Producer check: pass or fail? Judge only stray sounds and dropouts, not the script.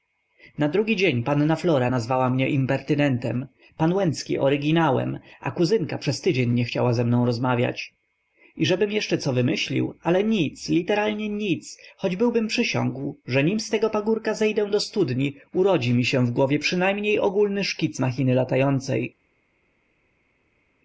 pass